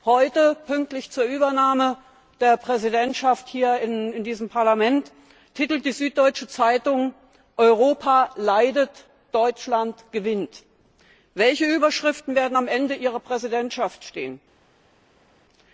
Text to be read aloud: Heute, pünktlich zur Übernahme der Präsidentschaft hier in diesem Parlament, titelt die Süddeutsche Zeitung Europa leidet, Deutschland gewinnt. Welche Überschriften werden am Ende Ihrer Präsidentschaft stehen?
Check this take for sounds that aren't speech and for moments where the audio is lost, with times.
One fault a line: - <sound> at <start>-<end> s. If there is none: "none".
none